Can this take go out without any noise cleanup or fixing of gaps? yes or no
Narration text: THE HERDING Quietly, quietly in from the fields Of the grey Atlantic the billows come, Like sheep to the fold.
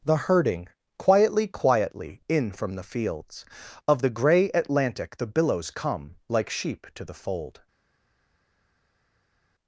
yes